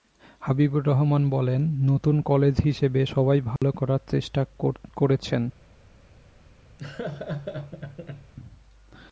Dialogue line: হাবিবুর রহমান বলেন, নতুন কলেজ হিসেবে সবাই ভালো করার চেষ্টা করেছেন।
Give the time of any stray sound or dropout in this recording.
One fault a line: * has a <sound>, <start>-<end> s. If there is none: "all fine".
* has a dropout, 3.6-3.6 s
* has a laugh, 6.8-8.3 s